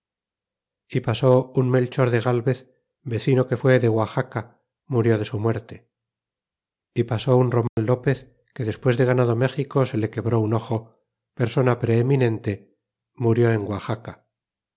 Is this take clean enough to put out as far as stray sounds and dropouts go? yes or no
no